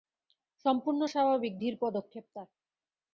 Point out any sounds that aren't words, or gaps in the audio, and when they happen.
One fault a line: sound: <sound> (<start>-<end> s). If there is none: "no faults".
no faults